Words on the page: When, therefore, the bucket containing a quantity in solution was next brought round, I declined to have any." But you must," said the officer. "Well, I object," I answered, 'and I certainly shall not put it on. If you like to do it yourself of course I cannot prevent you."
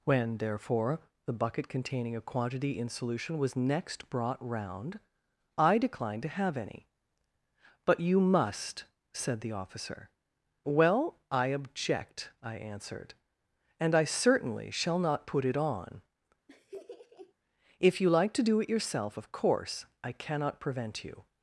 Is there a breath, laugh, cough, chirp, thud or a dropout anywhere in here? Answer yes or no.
yes